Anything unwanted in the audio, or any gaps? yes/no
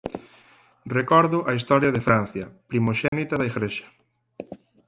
yes